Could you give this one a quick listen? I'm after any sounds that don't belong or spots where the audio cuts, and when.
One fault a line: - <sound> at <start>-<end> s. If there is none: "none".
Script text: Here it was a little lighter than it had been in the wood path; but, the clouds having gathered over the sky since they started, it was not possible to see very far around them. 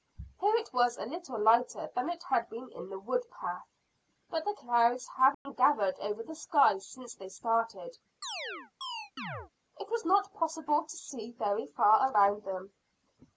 - dropout at 5.3-5.5 s
- chirp at 8.2-9.5 s